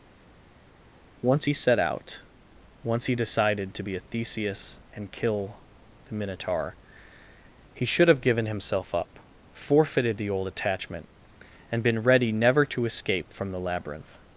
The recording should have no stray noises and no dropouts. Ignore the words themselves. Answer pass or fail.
pass